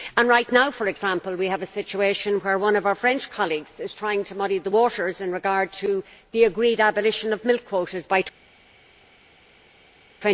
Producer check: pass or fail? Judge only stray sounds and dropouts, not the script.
pass